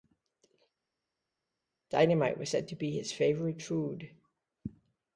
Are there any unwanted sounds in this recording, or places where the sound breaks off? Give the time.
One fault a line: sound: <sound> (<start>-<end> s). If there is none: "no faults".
no faults